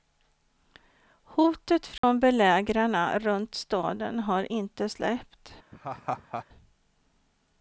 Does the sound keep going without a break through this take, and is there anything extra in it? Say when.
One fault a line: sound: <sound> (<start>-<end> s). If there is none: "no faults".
sound: dropout (2.0-2.0 s)
sound: laugh (5.7-6.4 s)